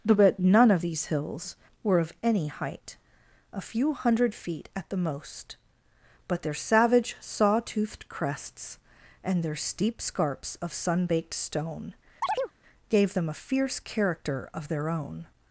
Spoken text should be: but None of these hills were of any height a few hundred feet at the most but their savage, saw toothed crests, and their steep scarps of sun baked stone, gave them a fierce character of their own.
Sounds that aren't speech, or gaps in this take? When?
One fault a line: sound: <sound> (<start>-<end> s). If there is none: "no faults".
sound: chirp (12.2-12.5 s)